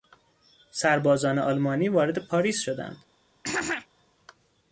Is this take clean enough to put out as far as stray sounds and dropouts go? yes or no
no